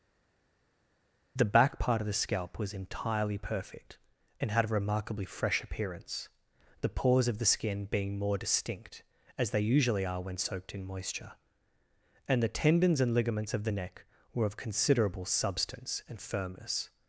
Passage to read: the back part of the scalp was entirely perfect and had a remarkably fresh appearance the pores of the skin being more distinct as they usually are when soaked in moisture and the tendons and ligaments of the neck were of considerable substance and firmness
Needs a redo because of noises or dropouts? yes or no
no